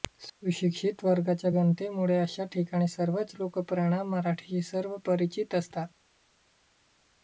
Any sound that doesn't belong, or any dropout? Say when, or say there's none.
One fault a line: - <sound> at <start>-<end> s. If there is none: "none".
none